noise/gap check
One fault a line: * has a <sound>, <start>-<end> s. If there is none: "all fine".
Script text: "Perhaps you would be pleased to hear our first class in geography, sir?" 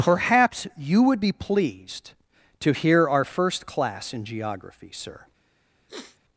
* has a sniff, 5.9-6.2 s